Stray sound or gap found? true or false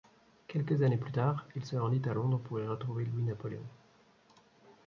false